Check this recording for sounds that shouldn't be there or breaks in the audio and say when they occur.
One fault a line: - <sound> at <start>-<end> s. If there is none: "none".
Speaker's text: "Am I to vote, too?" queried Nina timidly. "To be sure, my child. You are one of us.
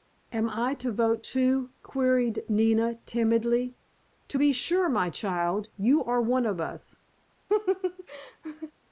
- laugh at 7.5-8.7 s